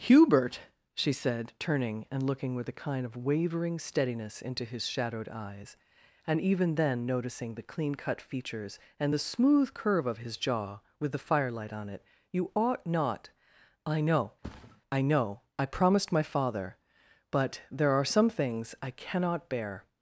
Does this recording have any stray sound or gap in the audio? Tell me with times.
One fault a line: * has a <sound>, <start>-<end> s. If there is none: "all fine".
* has a thud, 14.4-14.8 s